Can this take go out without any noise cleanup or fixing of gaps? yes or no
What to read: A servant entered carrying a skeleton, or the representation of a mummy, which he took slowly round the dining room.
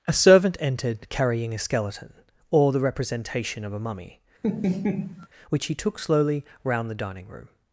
no